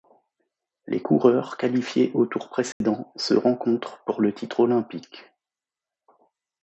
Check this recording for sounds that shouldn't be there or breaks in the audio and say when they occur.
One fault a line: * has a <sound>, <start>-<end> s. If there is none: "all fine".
* has a dropout, 2.7-2.8 s